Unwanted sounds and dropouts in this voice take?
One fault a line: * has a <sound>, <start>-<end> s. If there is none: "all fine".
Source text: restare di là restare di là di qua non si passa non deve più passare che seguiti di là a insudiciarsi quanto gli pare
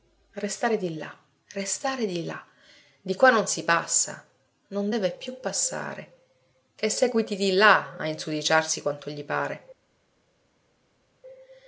all fine